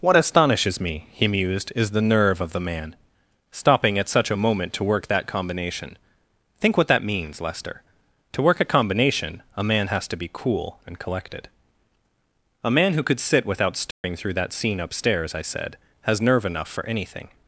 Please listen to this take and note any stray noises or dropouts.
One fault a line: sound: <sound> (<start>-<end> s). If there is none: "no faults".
sound: dropout (13.9-14.0 s)